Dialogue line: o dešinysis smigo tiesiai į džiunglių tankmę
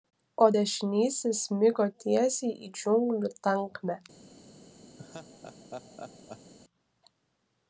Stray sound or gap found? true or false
true